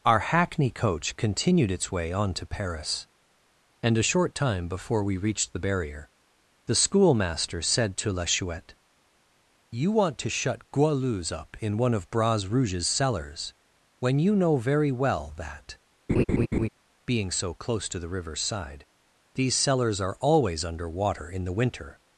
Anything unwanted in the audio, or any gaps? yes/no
yes